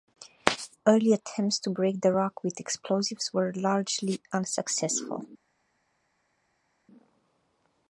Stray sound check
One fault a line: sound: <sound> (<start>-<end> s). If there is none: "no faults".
no faults